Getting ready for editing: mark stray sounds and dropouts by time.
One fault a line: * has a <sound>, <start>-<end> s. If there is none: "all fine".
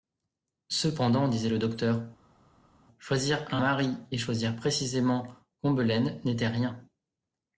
all fine